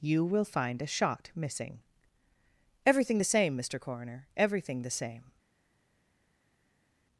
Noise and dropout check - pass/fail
pass